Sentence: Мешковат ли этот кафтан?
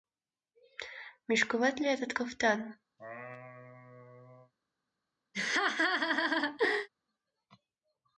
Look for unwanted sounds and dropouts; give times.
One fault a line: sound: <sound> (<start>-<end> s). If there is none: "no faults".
sound: laugh (3.0-4.5 s)
sound: laugh (5.3-6.9 s)